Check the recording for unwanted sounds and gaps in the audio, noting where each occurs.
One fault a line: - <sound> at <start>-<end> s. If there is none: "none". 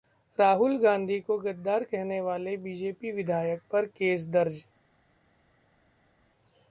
none